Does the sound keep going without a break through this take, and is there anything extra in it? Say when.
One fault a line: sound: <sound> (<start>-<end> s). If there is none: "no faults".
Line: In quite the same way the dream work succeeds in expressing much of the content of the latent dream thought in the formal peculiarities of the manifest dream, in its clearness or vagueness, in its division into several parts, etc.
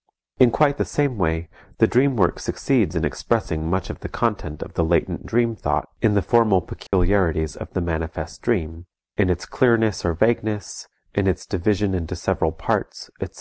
sound: dropout (6.9-6.9 s)